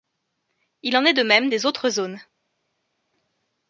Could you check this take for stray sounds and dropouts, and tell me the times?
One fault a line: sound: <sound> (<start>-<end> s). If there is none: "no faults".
no faults